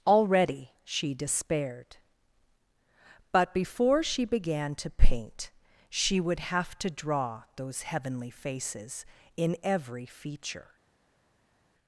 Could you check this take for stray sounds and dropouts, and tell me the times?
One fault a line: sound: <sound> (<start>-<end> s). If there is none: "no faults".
no faults